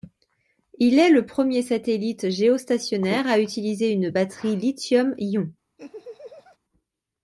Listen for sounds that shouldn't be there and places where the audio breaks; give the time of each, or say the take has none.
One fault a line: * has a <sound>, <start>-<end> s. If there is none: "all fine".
* has a laugh, 5.8-6.6 s